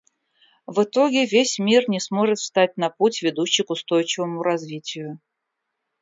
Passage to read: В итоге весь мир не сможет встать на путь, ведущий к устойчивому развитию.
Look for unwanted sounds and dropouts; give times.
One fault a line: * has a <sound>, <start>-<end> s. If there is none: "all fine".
all fine